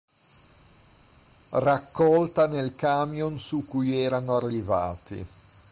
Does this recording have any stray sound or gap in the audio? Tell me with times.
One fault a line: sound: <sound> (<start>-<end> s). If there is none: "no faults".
no faults